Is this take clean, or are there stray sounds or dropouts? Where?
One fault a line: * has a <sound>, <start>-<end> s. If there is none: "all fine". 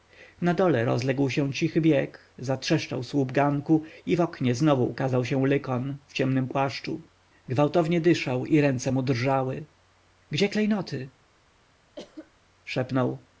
* has a cough, 12.0-12.3 s